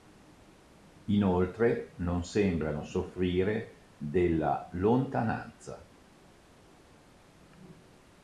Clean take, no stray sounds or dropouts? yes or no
yes